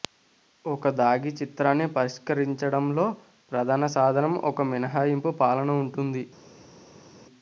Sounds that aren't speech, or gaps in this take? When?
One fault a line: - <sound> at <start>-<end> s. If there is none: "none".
none